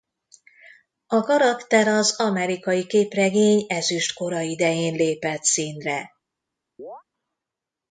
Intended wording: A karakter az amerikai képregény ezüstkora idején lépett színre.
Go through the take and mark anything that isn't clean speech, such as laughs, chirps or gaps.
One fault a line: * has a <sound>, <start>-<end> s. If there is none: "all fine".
* has a chirp, 6.8-7.0 s